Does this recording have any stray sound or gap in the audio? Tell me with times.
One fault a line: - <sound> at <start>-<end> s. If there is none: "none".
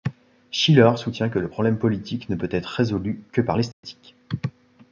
- dropout at 3.7-3.8 s